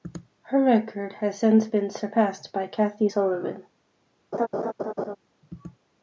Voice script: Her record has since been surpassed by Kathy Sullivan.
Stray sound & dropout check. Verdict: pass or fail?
fail